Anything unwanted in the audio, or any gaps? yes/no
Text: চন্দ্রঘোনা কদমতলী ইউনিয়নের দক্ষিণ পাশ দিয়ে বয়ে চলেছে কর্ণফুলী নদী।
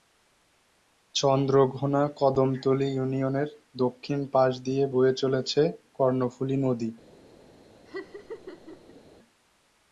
yes